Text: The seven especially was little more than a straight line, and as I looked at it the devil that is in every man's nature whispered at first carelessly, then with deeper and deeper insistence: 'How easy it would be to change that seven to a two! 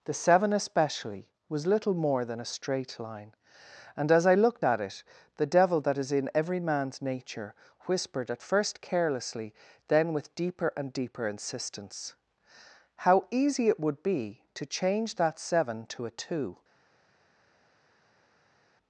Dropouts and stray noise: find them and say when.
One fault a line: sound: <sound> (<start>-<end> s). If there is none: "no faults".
no faults